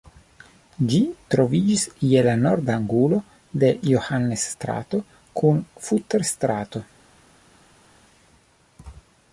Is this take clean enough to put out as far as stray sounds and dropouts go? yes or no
yes